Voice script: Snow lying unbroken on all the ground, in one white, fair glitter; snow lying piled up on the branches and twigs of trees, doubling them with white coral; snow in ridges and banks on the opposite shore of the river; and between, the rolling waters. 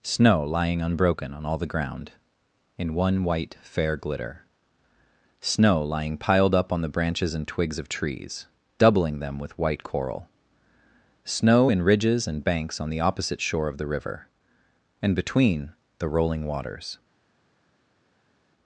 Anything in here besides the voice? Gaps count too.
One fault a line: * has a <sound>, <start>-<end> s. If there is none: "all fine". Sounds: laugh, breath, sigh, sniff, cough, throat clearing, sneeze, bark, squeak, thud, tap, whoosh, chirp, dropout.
all fine